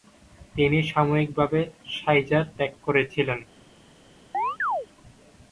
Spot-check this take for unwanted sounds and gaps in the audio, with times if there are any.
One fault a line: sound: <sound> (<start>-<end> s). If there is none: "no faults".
sound: chirp (4.3-4.9 s)